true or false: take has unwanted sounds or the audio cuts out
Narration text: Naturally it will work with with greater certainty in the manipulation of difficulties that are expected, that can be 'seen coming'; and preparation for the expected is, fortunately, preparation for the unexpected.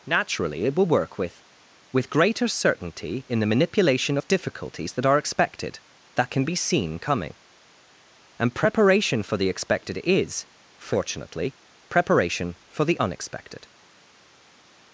false